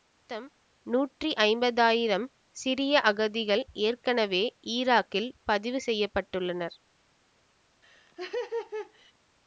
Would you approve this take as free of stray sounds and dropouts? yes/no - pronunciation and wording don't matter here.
no